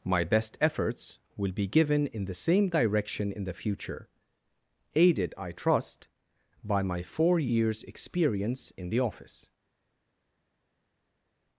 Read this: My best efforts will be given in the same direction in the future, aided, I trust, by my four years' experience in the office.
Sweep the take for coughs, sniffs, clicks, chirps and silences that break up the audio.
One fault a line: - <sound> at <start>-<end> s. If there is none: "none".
none